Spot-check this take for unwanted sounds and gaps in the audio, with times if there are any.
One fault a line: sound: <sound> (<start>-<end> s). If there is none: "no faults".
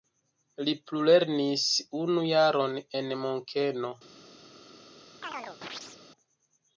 sound: chirp (5.2-6.0 s)